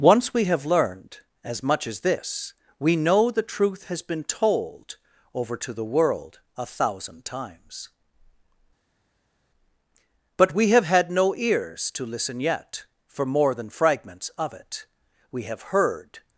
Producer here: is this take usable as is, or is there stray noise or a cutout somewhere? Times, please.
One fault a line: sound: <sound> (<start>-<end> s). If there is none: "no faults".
no faults